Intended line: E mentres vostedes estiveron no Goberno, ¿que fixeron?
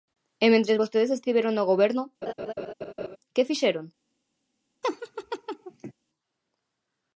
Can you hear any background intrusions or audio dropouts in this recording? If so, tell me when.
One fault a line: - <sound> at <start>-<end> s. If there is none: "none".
- laugh at 2.2-3.2 s
- laugh at 4.8-5.9 s